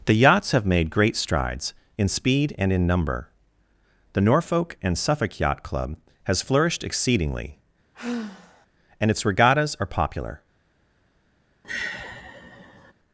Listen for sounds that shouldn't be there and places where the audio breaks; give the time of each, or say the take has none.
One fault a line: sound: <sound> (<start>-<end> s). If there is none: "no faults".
sound: sigh (7.9-8.7 s)
sound: sigh (11.6-12.9 s)